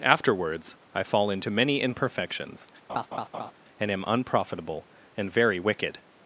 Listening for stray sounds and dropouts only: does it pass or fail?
fail